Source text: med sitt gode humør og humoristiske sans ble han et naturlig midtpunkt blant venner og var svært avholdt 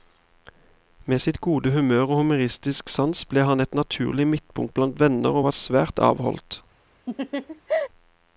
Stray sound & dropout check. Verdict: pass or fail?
fail